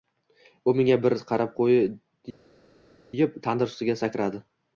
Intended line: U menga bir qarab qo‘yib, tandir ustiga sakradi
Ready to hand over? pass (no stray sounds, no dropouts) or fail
pass